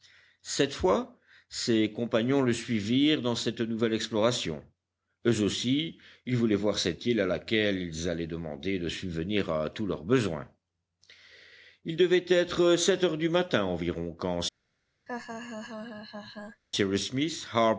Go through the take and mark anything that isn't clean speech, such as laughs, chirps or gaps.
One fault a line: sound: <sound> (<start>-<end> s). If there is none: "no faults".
sound: laugh (15.1-16.6 s)